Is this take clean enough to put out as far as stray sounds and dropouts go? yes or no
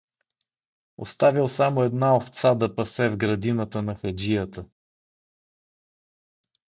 yes